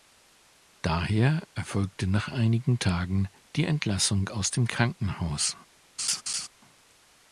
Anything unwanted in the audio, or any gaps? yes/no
yes